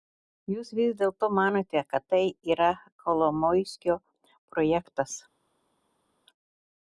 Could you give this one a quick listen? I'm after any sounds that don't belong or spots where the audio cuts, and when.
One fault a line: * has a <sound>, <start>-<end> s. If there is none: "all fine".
all fine